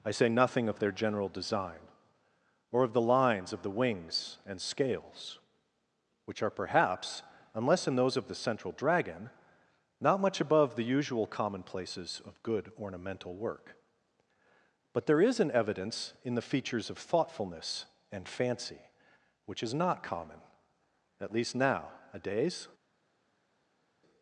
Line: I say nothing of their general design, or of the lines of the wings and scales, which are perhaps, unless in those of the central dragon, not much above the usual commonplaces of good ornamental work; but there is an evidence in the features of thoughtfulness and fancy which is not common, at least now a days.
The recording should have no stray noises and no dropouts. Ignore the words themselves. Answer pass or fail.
pass